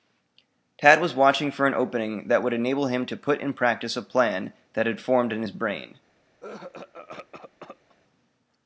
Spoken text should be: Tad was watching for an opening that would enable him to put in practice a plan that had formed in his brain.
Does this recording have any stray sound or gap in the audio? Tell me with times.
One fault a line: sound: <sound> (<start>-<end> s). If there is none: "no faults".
sound: cough (6.4-8.0 s)